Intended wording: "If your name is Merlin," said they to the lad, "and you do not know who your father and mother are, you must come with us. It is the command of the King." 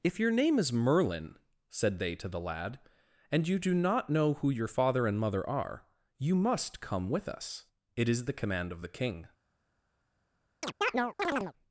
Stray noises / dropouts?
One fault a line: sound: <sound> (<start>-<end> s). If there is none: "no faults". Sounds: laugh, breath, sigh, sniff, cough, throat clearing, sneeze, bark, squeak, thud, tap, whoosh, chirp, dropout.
sound: chirp (10.6-11.5 s)